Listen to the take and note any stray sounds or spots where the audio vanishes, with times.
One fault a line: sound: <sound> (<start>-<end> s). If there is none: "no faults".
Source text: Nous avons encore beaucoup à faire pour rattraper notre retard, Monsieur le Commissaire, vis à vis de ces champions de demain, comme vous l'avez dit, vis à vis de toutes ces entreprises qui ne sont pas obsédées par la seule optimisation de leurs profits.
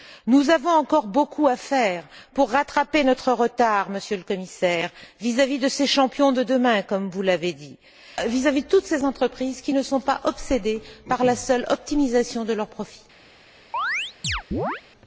sound: chirp (13.7-14.8 s)